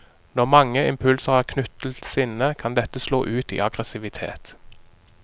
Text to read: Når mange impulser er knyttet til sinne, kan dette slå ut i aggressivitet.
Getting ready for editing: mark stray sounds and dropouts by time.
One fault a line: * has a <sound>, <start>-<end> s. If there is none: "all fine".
all fine